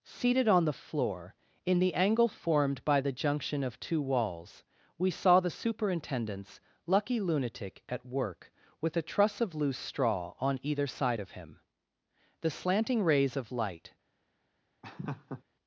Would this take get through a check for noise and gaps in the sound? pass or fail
fail